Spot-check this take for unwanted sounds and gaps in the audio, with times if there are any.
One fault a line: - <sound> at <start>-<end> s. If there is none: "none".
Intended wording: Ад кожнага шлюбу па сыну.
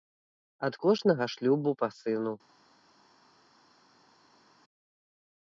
none